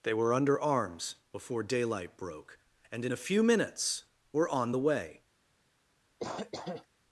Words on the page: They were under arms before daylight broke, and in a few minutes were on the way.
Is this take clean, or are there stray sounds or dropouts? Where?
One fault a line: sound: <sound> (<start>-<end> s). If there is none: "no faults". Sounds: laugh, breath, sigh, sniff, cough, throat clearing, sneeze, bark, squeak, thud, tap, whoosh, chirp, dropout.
sound: cough (6.2-6.9 s)